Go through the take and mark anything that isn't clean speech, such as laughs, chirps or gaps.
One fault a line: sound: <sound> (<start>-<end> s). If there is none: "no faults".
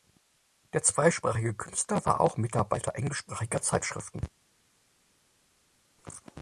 no faults